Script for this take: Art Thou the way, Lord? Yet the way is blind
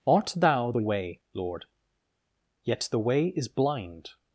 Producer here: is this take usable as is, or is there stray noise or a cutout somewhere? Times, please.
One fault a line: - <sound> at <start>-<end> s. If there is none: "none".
none